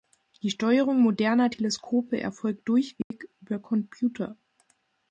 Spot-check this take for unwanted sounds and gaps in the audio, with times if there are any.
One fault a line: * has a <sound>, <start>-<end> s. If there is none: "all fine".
* has a dropout, 3.0-3.1 s